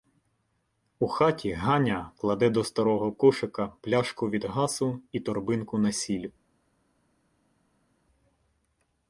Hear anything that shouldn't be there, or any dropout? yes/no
no